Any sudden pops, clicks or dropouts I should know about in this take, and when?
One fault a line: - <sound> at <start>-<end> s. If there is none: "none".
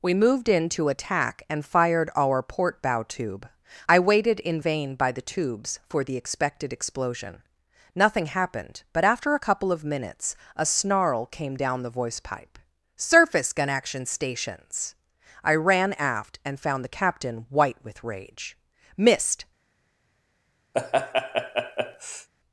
- laugh at 20.7-22.3 s